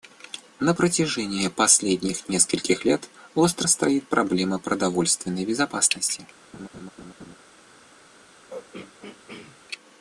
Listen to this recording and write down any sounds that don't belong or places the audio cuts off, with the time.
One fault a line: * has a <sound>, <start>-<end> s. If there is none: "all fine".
* has a laugh, 6.5-7.4 s
* has a throat clearing, 8.5-9.6 s